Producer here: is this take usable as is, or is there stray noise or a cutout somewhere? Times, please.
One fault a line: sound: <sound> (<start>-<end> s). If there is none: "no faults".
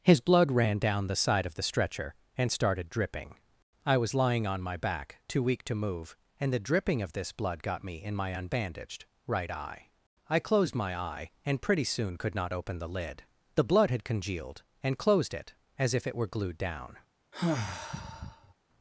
sound: sigh (17.3-18.5 s)